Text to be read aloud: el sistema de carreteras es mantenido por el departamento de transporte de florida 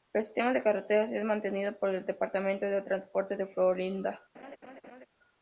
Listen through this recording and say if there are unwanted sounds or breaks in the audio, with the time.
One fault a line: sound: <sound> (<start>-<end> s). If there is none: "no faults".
sound: laugh (4.3-5.1 s)